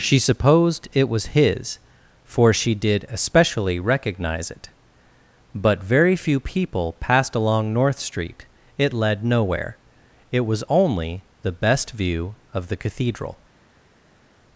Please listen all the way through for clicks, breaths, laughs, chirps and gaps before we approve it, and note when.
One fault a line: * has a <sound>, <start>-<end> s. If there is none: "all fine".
all fine